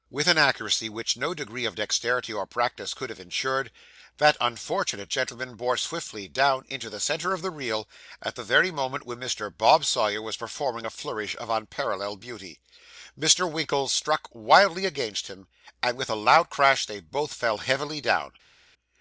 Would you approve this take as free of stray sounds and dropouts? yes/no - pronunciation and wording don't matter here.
yes